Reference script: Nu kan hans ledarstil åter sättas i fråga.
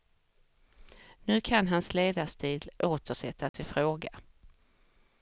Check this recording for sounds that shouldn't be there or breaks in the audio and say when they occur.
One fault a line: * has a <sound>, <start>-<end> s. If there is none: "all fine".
* has a dropout, 3.5-3.5 s